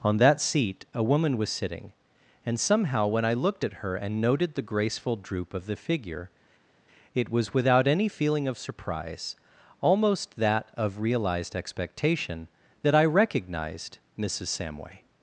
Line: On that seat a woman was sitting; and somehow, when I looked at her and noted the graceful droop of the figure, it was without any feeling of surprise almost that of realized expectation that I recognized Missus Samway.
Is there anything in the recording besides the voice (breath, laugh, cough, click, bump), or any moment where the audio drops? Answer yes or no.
no